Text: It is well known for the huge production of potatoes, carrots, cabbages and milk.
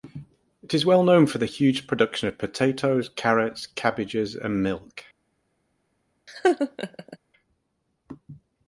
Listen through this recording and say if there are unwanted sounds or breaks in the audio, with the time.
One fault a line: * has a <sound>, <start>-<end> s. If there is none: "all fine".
* has a laugh, 6.3-7.2 s